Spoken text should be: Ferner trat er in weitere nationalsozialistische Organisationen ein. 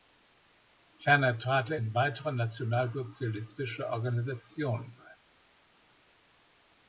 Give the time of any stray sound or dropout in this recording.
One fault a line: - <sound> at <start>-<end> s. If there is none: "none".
none